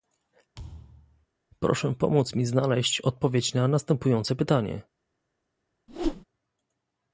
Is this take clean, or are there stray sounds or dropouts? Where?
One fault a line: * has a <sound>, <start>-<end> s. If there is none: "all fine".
* has a thud, 0.5-1.3 s
* has a whoosh, 5.9-6.2 s